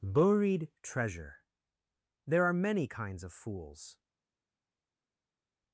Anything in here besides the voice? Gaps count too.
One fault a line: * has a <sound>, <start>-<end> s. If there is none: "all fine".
all fine